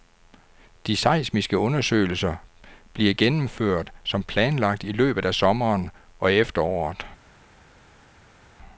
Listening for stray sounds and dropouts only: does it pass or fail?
pass